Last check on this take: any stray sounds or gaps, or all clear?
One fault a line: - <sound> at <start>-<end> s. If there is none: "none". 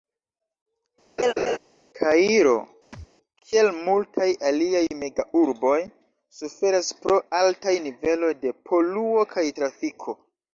- laugh at 1.2-1.6 s
- thud at 2.9-3.1 s